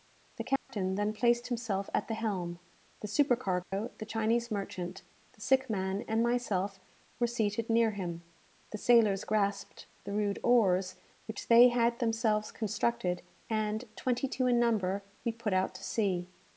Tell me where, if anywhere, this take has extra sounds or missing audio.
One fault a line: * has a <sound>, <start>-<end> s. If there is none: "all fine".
* has a dropout, 0.6-0.7 s
* has a dropout, 3.6-3.7 s